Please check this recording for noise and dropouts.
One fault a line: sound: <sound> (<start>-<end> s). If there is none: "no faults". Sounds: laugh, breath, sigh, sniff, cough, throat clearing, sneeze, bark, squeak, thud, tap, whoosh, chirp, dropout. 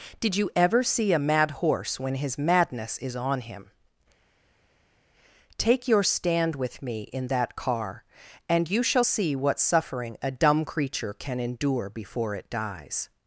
no faults